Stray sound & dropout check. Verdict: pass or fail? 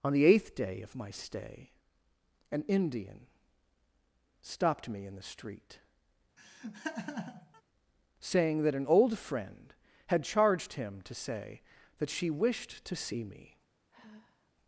fail